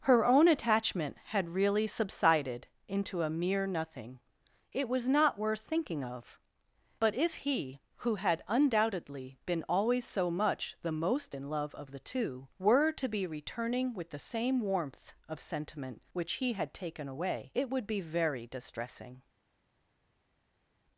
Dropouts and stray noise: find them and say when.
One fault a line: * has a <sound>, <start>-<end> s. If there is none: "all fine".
all fine